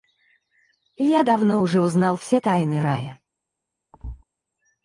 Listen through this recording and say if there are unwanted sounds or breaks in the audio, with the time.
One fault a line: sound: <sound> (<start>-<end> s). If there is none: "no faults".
sound: thud (3.9-4.2 s)